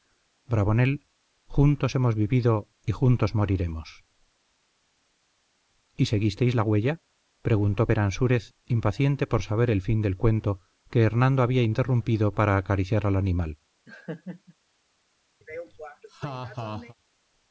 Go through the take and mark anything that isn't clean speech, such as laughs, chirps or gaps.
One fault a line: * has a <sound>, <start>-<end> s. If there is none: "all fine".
* has a laugh, 13.9-14.5 s
* has a laugh, 15.4-16.9 s